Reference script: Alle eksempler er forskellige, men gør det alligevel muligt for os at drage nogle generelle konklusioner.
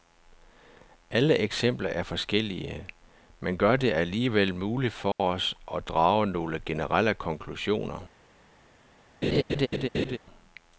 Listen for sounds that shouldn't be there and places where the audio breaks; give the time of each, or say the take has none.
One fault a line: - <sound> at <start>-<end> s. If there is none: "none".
- dropout at 5.1-5.2 s
- laugh at 9.2-10.2 s